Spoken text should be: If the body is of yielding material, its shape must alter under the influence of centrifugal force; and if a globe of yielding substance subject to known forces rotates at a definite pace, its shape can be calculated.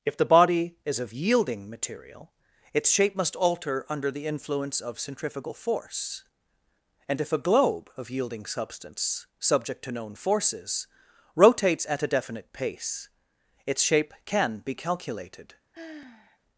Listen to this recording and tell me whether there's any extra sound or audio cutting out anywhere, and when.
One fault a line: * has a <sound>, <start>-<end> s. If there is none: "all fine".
* has a sigh, 15.7-16.4 s